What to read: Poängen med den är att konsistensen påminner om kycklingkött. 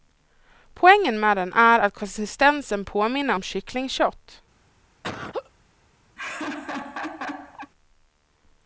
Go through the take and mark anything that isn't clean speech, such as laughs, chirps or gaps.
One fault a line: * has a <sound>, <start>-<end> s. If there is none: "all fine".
* has a laugh, 5.0-5.5 s
* has a laugh, 6.2-7.7 s